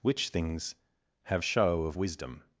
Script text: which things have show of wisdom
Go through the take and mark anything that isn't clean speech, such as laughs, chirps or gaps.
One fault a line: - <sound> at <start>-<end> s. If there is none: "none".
none